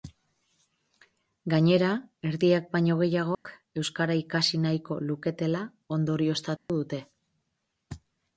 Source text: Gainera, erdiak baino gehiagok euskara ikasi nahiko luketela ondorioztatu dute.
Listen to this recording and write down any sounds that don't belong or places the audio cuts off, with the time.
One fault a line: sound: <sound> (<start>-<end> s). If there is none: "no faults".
sound: dropout (3.3-3.5 s)
sound: dropout (6.6-6.7 s)